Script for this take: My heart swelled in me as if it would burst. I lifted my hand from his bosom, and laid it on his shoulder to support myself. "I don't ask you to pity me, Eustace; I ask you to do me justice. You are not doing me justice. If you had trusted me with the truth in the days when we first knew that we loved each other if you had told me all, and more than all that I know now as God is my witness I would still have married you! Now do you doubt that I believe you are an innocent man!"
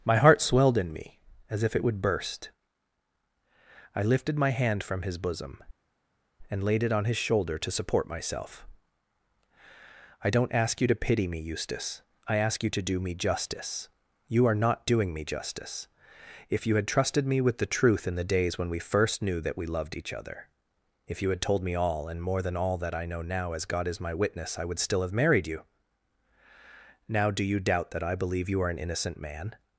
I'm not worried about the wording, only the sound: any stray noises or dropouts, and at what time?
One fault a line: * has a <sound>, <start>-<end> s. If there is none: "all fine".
all fine